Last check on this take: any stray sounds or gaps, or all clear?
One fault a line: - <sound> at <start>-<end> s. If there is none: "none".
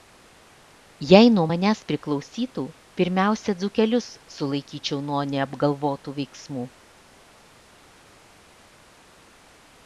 none